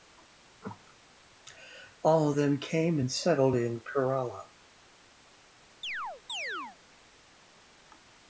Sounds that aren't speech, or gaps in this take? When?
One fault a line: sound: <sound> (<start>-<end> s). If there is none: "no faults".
sound: chirp (5.8-6.8 s)